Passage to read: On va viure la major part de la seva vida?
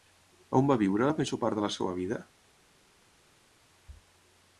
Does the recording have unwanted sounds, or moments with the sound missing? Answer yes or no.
no